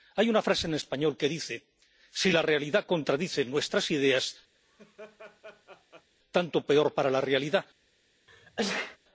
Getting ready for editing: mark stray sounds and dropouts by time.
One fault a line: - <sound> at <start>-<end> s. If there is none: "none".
- laugh at 4.5-6.1 s
- sneeze at 8.3-9.0 s